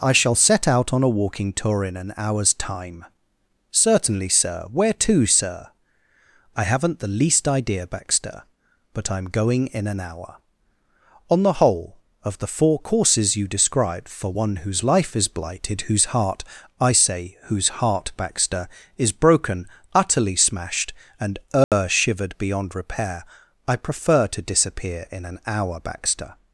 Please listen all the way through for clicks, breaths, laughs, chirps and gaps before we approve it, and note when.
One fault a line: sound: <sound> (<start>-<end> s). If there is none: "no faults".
sound: dropout (21.6-21.7 s)